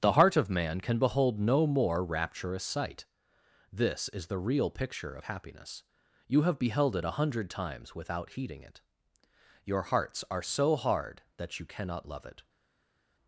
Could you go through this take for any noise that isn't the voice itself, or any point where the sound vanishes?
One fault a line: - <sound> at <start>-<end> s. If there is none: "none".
none